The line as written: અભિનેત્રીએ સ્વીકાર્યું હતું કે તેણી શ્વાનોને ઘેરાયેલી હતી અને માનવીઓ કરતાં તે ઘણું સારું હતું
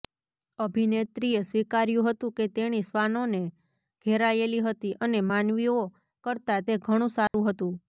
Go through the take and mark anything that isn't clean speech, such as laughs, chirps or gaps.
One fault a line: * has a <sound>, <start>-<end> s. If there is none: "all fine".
* has a dropout, 7.3-7.3 s